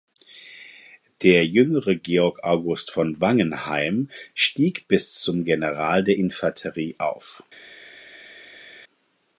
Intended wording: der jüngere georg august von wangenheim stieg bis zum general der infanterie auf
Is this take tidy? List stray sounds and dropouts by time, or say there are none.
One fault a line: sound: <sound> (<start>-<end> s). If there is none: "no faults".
no faults